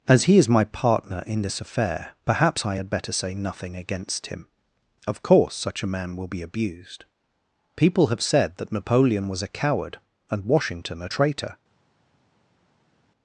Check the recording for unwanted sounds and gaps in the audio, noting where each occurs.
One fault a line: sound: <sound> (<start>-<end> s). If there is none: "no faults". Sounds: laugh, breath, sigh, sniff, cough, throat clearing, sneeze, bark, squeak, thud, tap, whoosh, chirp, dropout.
no faults